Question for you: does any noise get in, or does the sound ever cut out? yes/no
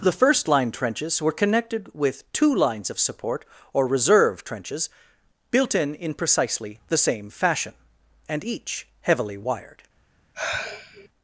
yes